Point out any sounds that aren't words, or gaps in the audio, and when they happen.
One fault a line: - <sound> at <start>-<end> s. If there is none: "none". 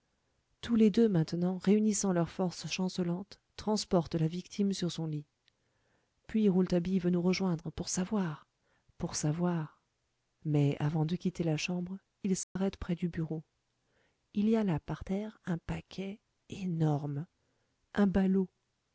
- dropout at 12.4-12.6 s